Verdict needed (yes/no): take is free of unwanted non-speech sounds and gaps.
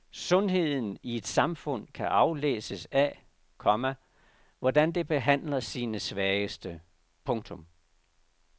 yes